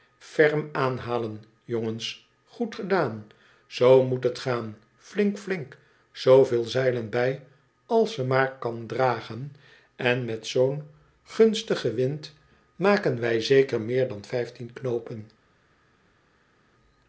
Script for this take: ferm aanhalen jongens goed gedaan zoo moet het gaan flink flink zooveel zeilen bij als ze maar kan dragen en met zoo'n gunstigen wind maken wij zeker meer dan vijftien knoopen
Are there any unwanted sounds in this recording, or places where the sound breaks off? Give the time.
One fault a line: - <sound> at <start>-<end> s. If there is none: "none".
none